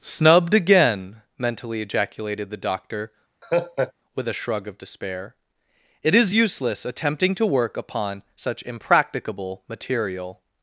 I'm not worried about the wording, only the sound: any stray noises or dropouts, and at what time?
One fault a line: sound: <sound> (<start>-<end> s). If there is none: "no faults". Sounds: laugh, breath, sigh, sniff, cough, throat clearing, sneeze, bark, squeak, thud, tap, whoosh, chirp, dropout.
sound: laugh (3.4-3.9 s)